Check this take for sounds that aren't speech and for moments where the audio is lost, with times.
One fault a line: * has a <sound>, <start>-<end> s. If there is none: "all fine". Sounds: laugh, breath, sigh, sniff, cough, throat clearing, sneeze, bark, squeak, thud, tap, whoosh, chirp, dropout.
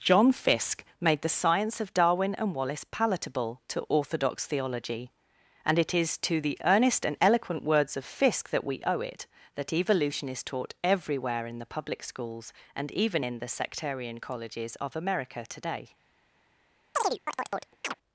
* has a chirp, 17.0-17.9 s